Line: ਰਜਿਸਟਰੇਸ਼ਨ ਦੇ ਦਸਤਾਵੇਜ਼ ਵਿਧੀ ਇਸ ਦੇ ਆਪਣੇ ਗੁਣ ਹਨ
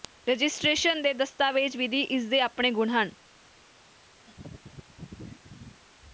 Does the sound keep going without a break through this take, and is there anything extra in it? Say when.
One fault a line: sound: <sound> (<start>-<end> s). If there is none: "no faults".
sound: laugh (4.3-5.8 s)